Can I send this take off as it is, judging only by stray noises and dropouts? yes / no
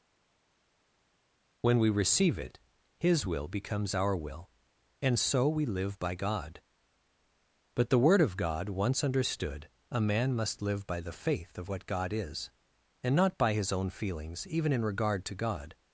yes